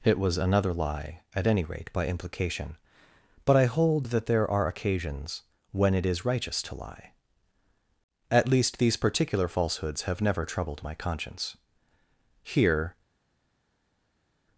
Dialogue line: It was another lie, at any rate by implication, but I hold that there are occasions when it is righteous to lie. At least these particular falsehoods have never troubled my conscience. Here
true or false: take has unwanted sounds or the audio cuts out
false